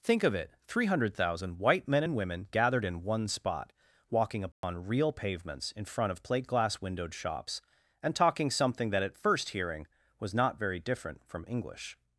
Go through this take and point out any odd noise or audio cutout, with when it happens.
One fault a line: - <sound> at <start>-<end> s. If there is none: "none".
- dropout at 4.5-4.6 s